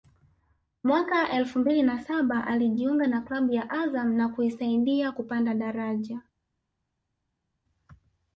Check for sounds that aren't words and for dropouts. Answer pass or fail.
pass